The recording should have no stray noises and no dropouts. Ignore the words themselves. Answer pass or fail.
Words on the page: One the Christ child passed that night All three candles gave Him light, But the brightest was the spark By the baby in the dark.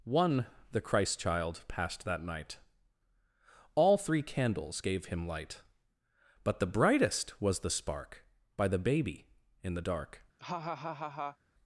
fail